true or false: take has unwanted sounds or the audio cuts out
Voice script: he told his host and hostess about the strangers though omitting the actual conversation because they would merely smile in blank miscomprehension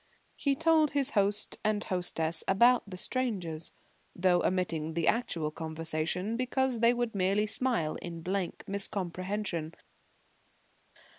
false